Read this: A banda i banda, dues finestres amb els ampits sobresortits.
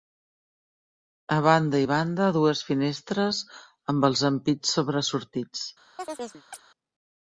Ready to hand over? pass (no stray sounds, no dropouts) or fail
fail